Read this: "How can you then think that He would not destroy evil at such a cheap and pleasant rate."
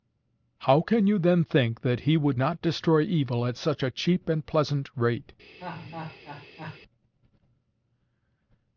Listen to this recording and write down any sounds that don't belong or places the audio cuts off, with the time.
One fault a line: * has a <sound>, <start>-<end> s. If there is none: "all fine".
* has a laugh, 5.6-6.8 s